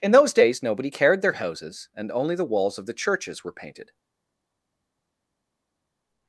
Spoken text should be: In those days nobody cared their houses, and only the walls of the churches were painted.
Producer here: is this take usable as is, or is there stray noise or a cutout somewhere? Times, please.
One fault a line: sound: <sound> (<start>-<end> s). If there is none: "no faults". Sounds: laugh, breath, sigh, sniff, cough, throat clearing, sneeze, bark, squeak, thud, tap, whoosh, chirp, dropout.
no faults